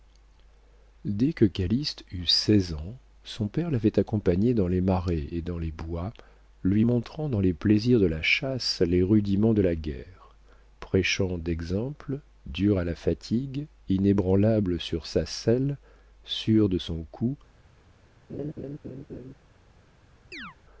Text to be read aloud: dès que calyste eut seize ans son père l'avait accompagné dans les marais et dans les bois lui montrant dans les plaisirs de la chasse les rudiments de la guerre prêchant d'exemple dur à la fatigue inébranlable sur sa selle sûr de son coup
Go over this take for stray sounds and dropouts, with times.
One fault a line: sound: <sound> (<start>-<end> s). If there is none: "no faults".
sound: laugh (18.3-19.3 s)
sound: chirp (20.3-20.6 s)